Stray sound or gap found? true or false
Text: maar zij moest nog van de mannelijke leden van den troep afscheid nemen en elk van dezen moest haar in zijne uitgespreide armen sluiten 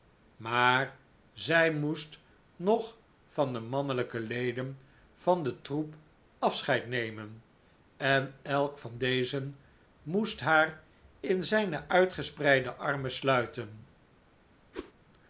true